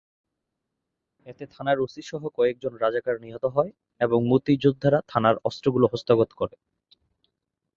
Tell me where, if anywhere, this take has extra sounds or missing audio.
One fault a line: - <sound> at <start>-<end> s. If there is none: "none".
none